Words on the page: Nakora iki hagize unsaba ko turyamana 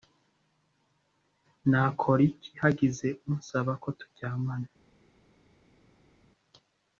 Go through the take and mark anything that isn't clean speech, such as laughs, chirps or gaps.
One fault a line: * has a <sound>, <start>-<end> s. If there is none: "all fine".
all fine